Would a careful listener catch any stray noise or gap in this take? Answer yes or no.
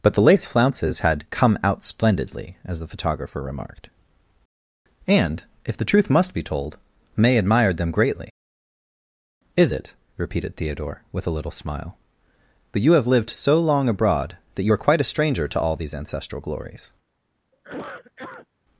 yes